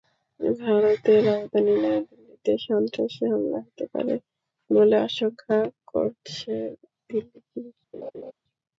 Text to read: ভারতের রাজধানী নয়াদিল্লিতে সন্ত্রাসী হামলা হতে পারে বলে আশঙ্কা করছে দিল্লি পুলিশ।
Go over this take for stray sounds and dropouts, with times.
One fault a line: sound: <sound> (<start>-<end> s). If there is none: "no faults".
sound: laugh (7.9-8.3 s)